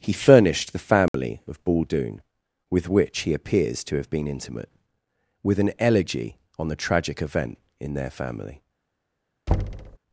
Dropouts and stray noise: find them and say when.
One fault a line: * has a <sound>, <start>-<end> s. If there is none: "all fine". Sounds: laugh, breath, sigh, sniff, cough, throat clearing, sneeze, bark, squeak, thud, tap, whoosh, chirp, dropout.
* has a dropout, 1.1-1.1 s
* has a thud, 9.5-10.0 s